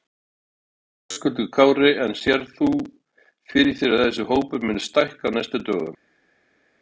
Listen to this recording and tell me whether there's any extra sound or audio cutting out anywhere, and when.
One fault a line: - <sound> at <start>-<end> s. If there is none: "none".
none